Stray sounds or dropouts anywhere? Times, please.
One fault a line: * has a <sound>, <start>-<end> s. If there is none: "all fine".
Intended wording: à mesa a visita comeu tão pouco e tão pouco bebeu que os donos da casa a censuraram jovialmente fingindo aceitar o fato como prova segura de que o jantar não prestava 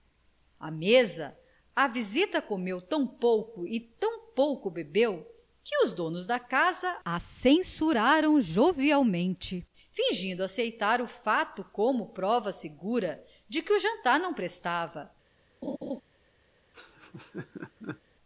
* has a laugh, 15.6-16.0 s
* has a laugh, 16.7-18.0 s